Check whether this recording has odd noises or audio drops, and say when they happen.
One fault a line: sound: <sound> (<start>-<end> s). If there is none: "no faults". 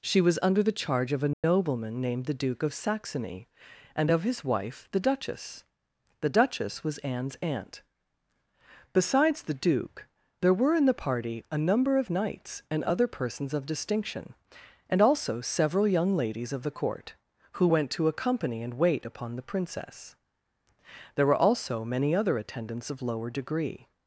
sound: dropout (1.3-1.4 s)